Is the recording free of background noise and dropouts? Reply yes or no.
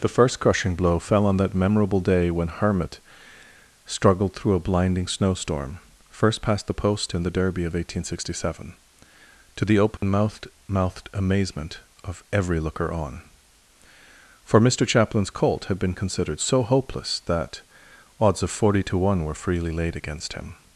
no